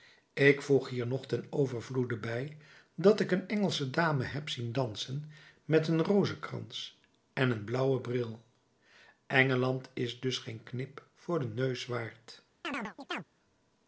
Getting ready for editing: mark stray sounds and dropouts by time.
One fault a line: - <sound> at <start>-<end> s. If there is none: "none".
- chirp at 12.6-13.2 s